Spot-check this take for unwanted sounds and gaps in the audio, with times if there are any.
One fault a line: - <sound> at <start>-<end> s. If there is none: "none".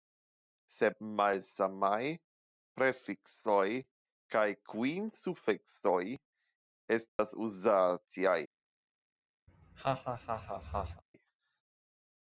- dropout at 7.1-7.2 s
- laugh at 9.5-11.0 s